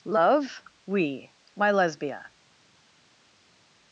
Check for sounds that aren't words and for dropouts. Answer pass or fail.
pass